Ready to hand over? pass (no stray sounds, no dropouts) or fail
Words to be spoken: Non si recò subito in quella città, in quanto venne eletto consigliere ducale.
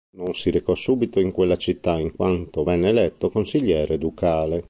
pass